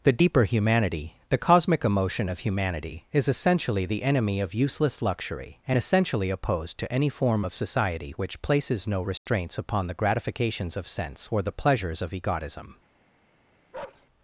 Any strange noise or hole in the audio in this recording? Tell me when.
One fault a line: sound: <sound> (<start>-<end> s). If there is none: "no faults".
sound: dropout (9.2-9.3 s)
sound: bark (13.7-14.1 s)